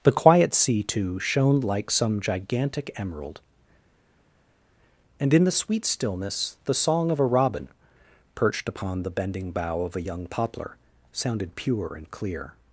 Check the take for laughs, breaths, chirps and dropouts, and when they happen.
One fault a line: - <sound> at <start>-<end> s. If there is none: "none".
none